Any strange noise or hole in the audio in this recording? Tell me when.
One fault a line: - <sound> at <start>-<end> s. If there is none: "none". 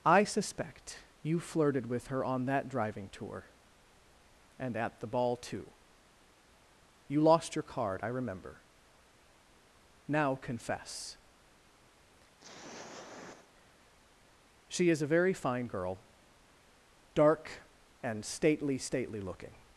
- throat clearing at 12.4-13.5 s